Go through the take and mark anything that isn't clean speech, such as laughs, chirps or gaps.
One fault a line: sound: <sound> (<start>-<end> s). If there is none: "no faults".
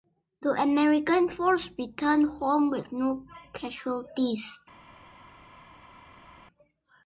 no faults